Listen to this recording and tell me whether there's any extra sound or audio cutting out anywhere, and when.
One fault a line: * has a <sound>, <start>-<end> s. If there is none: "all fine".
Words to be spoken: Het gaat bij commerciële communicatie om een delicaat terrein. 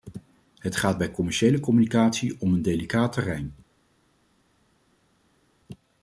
all fine